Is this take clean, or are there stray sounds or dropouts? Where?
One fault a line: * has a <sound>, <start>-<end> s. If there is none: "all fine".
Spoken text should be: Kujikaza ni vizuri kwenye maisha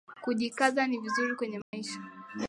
* has a dropout, 1.6-1.7 s